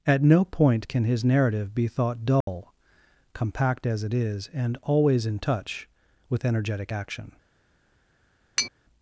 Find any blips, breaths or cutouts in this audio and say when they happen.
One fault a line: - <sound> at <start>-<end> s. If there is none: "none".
- dropout at 2.4-2.5 s
- tap at 8.6-8.7 s